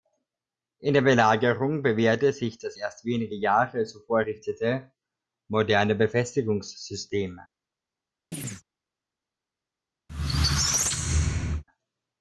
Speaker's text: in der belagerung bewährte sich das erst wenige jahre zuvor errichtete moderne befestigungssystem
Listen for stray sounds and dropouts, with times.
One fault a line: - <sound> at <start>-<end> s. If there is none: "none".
- chirp at 8.3-8.6 s
- squeak at 10.1-11.6 s